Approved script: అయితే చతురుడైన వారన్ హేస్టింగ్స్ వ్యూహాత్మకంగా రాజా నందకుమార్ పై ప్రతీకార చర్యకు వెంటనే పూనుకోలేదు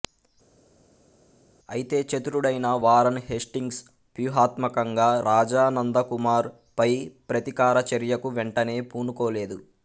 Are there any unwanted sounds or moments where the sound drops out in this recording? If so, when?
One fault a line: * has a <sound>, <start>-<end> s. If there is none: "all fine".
all fine